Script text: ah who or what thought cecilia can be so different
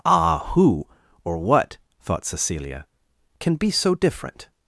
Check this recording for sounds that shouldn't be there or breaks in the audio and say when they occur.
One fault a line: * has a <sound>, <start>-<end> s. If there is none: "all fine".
all fine